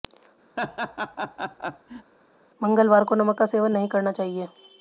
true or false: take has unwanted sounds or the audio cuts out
true